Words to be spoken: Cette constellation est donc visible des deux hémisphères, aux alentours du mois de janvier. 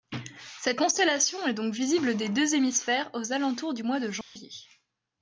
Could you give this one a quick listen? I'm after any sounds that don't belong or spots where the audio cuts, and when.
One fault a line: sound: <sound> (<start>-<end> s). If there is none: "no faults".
sound: dropout (4.2-4.4 s)